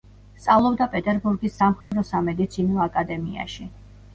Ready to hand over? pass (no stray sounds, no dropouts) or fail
fail